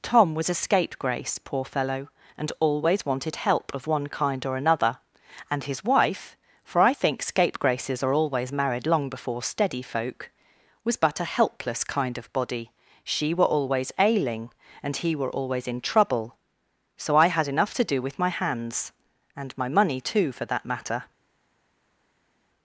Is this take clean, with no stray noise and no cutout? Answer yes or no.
yes